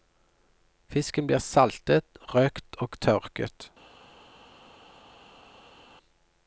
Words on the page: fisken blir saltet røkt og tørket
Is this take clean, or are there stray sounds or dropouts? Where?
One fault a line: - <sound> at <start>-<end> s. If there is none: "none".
none